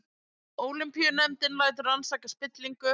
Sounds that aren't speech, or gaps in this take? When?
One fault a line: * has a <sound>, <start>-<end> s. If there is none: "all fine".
all fine